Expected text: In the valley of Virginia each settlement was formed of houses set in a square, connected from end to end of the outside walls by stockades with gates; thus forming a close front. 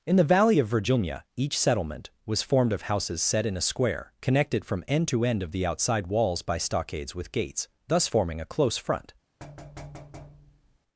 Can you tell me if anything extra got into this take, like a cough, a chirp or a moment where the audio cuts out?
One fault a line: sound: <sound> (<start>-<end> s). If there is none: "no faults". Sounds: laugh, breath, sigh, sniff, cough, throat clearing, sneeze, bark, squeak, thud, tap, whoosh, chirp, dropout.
sound: thud (9.4-10.8 s)